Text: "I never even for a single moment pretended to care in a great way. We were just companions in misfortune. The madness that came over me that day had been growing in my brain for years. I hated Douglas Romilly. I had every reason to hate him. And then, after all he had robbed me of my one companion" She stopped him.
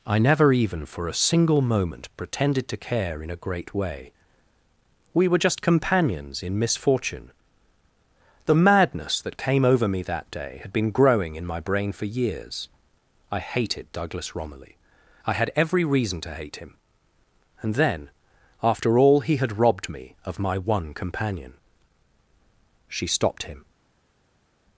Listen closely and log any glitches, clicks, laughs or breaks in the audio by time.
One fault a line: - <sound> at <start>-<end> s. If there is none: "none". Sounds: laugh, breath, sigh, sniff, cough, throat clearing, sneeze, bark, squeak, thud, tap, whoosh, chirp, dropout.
none